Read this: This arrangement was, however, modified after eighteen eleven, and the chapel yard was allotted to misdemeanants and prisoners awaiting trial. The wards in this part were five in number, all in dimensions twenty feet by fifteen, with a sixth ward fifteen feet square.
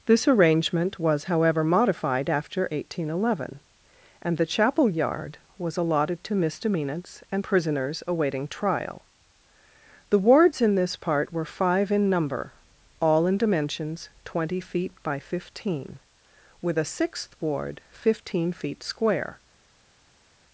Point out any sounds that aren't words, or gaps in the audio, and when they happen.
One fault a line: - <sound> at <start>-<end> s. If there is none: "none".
none